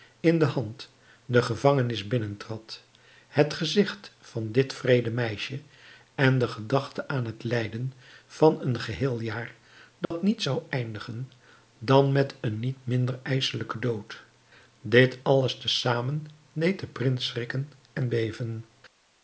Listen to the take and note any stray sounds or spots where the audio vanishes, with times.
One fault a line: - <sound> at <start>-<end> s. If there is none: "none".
- dropout at 10.0-10.1 s